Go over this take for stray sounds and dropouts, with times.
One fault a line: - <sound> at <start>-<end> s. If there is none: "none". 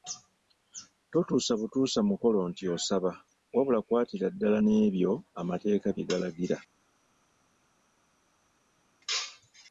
none